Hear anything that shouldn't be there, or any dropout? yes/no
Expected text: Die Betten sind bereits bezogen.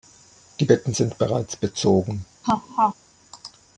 yes